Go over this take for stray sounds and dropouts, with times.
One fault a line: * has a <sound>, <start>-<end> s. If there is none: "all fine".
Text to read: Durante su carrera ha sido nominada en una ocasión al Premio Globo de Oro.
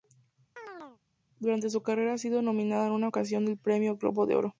* has a chirp, 0.6-1.0 s